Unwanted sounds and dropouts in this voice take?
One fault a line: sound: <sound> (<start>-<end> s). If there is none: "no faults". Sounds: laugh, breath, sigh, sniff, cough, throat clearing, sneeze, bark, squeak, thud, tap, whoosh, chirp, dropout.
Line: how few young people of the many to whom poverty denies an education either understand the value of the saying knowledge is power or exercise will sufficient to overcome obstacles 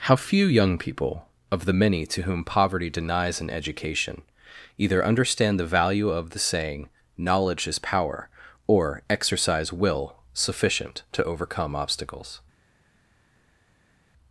no faults